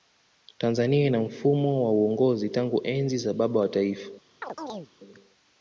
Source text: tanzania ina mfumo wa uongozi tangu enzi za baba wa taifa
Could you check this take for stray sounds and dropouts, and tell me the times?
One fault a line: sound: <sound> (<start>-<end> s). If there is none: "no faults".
sound: chirp (4.4-4.9 s)